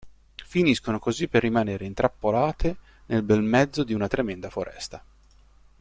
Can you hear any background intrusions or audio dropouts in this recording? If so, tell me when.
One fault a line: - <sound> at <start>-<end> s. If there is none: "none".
none